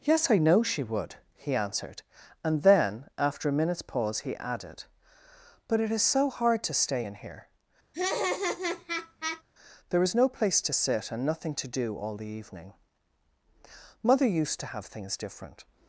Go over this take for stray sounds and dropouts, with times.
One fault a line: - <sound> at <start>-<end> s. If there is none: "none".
- laugh at 7.9-9.4 s